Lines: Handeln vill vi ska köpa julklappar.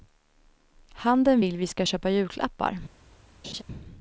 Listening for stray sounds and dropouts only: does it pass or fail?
fail